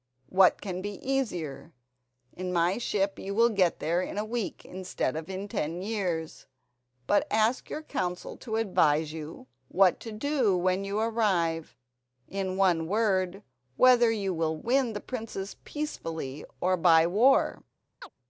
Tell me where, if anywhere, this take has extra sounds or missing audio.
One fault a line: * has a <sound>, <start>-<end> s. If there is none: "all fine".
* has a chirp, 18.0-18.1 s